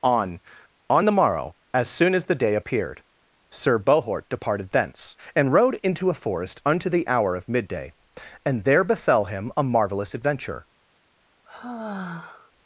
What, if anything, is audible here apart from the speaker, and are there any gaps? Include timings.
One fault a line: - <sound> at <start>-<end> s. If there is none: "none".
- sigh at 11.5-12.5 s